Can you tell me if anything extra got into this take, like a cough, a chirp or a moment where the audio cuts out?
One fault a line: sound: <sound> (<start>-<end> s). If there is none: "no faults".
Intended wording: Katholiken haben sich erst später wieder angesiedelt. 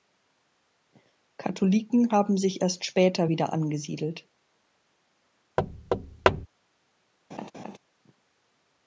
sound: thud (5.6-6.5 s)
sound: laugh (7.3-7.8 s)